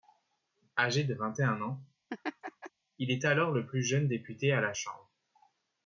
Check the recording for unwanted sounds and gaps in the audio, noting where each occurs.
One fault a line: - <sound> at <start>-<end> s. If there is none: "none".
- laugh at 2.1-2.7 s